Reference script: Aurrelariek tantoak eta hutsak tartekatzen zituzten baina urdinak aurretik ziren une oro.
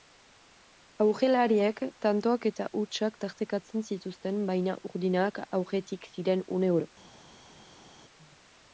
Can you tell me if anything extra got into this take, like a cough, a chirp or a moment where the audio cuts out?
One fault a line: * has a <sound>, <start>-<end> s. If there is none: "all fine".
all fine